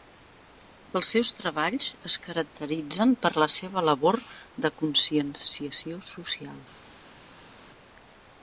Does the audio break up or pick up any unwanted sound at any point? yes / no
no